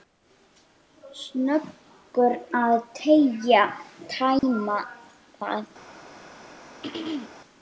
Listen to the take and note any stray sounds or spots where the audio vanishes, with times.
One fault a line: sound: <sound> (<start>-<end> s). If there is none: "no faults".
sound: dropout (4.4-4.4 s)
sound: throat clearing (6.8-7.3 s)